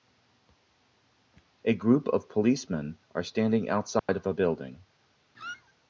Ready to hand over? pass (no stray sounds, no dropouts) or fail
fail